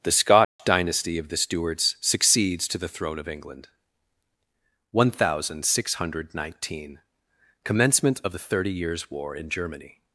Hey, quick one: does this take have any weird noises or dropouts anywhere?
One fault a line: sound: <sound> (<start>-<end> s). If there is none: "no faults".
sound: dropout (0.4-0.6 s)